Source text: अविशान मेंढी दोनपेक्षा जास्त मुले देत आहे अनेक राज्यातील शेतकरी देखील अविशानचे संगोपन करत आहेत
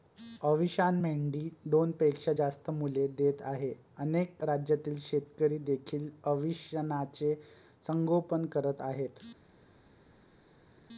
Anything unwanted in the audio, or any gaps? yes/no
no